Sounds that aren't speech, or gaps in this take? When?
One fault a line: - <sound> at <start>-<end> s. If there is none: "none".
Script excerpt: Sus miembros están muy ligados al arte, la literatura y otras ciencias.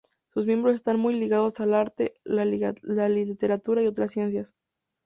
none